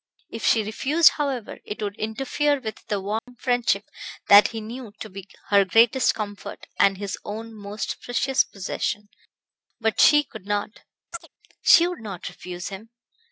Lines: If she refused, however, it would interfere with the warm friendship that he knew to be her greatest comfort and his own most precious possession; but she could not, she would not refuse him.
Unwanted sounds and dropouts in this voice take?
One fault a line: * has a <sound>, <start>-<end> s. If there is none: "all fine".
* has a dropout, 3.2-3.3 s
* has a chirp, 11.1-11.3 s